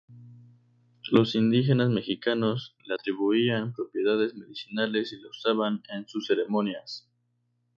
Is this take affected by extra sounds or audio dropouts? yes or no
no